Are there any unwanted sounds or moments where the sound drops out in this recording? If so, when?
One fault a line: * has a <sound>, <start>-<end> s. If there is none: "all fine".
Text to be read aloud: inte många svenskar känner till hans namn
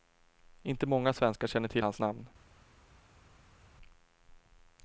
all fine